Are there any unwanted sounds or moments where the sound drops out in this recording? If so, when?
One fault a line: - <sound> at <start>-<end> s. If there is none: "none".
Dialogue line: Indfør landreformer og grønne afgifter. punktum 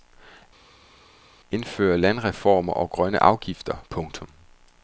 none